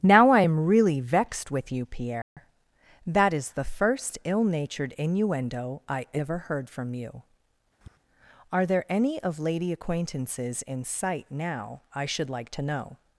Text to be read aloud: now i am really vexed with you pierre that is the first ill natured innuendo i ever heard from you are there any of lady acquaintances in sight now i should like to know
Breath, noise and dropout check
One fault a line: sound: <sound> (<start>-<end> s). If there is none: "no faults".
sound: dropout (2.2-2.4 s)
sound: tap (7.8-8.0 s)